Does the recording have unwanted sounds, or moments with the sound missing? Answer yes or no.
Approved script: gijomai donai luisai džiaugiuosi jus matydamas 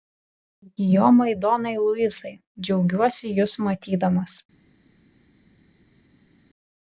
no